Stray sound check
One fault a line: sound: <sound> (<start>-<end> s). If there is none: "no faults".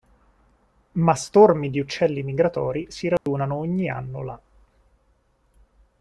sound: dropout (3.2-3.3 s)